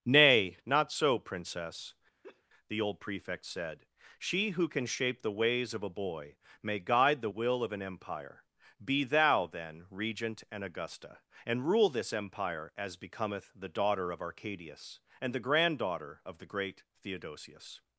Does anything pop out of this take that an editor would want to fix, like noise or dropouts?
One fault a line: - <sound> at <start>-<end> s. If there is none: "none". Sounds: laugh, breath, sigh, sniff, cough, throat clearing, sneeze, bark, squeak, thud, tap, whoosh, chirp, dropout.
- laugh at 2.2-2.4 s